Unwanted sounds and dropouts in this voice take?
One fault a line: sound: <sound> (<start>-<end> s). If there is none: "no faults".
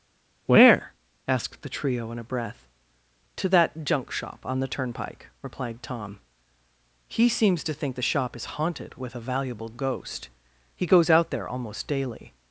no faults